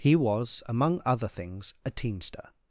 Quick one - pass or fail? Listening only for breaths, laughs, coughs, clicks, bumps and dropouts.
pass